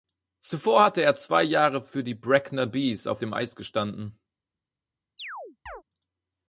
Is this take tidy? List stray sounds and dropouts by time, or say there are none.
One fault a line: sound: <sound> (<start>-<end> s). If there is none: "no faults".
sound: chirp (5.2-5.8 s)